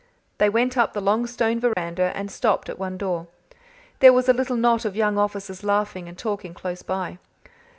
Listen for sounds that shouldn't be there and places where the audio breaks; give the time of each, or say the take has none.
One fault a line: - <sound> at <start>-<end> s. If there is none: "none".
- dropout at 1.7-1.8 s